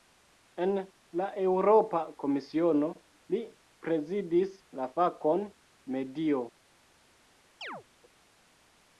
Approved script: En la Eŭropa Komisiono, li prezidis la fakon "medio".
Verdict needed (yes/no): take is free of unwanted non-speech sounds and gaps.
no